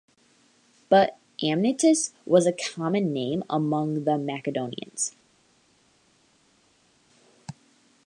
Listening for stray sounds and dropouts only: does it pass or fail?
pass